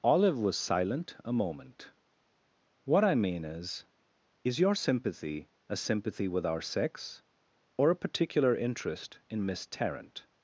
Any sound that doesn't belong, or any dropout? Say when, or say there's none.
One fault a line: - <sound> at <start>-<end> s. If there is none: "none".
none